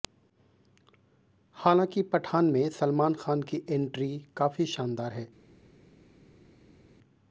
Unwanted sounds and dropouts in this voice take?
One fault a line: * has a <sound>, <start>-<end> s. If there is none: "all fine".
all fine